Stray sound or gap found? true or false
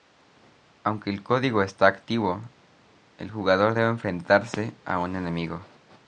false